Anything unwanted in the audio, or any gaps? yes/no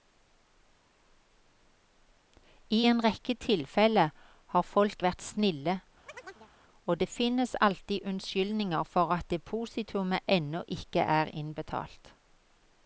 yes